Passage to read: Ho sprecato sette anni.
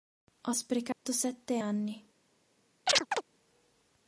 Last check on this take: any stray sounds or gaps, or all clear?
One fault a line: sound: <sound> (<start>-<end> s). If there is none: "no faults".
sound: dropout (0.9-1.1 s)
sound: chirp (2.9-3.2 s)